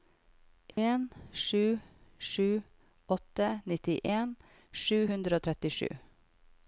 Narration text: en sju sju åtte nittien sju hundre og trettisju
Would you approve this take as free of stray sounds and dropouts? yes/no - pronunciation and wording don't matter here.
no